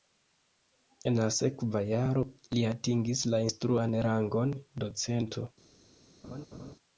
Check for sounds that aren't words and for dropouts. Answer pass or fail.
fail